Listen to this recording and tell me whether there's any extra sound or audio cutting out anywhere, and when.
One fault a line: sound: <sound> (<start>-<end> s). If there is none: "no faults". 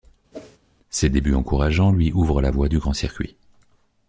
sound: whoosh (0.3-0.6 s)